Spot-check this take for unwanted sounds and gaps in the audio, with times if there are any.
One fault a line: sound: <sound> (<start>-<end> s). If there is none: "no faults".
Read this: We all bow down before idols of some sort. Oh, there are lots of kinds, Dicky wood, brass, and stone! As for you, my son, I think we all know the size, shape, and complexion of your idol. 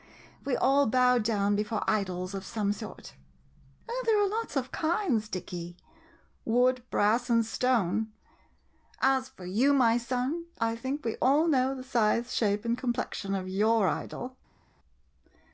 no faults